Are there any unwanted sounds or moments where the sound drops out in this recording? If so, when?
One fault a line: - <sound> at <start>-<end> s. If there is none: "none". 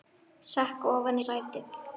none